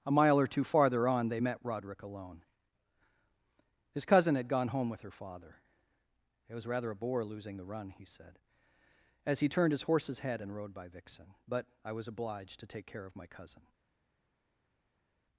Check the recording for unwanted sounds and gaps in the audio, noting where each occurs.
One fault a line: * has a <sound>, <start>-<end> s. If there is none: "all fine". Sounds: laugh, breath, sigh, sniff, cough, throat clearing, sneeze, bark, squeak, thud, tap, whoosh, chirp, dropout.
all fine